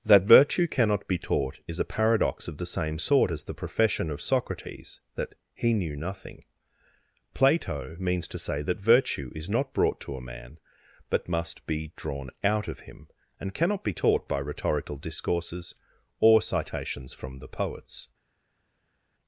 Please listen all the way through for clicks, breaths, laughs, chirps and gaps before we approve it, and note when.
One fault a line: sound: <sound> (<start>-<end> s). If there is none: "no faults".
no faults